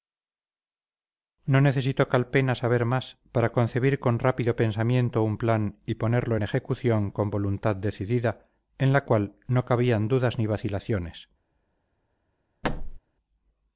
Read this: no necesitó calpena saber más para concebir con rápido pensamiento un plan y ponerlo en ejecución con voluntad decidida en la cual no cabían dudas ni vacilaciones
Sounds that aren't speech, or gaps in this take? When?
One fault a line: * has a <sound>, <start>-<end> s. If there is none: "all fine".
* has a thud, 12.6-13.0 s